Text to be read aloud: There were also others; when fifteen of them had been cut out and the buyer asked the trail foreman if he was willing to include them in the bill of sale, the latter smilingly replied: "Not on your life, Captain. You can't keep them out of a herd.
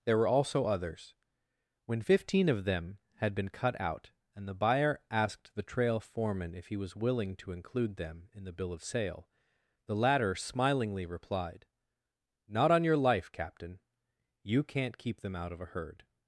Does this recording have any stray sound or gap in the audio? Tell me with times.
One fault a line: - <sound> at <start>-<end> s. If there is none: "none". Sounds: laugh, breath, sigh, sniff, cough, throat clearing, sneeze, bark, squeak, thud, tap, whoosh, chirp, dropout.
none